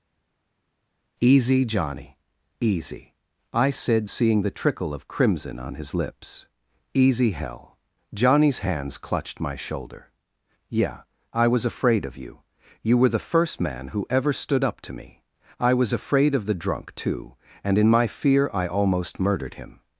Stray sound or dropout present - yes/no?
no